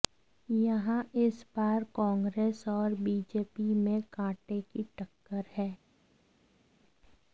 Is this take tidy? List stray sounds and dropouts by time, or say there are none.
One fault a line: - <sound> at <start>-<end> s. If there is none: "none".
none